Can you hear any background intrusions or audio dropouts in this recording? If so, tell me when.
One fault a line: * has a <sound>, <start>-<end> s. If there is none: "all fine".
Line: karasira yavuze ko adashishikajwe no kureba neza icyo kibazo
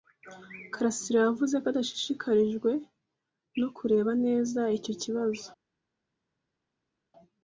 all fine